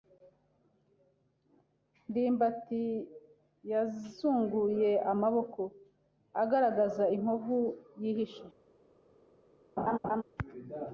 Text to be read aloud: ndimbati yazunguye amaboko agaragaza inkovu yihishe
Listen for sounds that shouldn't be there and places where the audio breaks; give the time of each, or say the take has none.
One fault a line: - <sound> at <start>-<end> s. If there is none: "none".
- laugh at 9.8-10.2 s